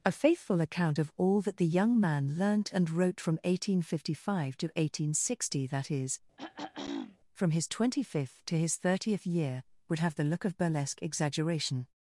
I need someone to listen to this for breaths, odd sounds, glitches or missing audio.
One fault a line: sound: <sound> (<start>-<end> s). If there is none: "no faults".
sound: throat clearing (6.4-7.2 s)